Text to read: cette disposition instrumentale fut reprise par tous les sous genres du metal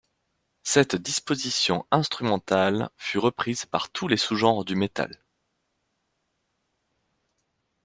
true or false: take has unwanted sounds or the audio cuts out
false